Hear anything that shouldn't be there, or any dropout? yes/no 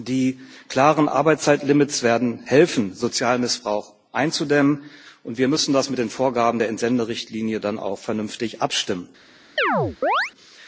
yes